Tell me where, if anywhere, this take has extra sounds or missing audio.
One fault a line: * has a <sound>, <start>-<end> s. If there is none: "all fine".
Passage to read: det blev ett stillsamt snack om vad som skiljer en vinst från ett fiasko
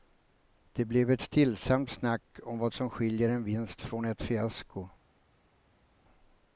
all fine